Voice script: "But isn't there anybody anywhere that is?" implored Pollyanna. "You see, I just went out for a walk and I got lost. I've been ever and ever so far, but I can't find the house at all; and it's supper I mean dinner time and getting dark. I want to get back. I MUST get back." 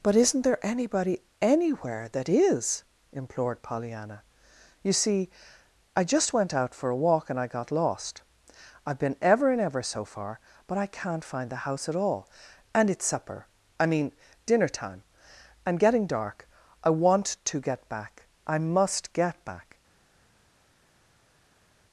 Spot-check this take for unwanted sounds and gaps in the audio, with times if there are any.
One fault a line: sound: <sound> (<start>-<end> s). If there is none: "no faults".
no faults